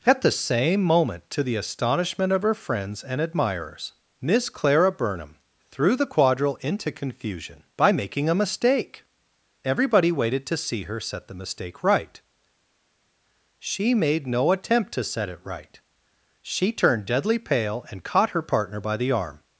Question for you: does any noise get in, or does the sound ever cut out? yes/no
no